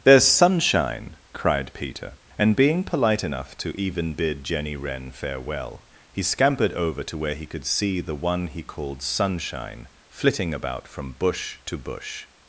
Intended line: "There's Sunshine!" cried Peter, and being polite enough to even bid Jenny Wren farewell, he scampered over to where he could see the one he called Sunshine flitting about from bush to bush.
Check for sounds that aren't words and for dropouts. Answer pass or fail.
pass